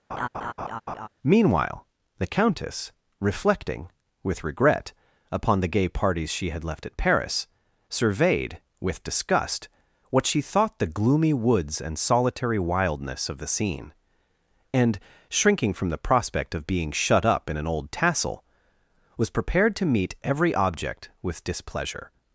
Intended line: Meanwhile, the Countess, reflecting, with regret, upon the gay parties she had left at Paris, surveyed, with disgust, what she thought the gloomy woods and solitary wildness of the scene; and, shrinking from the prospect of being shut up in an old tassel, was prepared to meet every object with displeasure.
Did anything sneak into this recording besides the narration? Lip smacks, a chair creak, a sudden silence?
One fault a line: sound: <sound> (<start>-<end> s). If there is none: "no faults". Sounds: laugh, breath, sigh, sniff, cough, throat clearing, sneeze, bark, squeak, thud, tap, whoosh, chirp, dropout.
sound: laugh (0.1-1.1 s)